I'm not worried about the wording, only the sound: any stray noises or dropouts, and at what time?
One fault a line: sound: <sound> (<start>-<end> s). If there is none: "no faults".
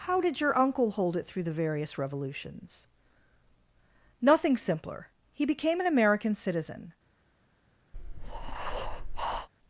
sound: breath (7.9-9.5 s)